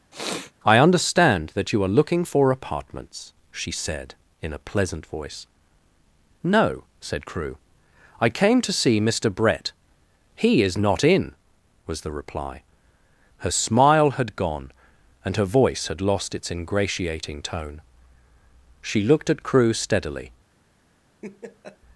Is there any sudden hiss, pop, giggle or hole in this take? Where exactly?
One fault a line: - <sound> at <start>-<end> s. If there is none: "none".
- sniff at 0.1-0.5 s
- laugh at 21.2-21.8 s